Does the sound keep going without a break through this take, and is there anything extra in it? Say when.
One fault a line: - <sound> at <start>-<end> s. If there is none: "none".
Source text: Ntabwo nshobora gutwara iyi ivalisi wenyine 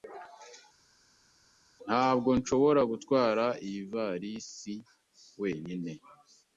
none